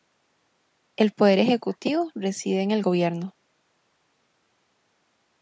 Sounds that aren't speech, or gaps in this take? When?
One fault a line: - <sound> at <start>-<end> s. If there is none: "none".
none